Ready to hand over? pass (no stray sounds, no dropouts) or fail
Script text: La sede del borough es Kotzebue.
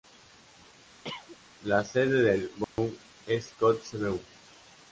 fail